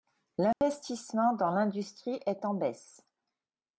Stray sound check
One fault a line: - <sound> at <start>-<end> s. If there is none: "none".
- dropout at 0.5-0.6 s